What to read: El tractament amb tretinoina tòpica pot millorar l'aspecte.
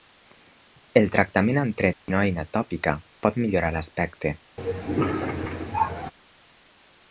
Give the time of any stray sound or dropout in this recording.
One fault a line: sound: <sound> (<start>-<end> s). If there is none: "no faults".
sound: dropout (1.9-2.1 s)
sound: cough (4.6-6.1 s)